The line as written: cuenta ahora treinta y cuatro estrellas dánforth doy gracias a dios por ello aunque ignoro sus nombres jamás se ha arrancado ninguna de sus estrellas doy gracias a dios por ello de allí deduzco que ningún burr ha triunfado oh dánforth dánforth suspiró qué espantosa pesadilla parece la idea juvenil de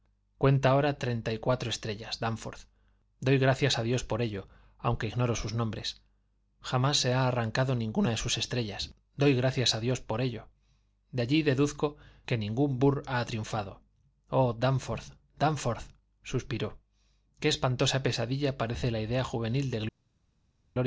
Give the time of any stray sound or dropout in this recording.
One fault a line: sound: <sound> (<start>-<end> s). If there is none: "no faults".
no faults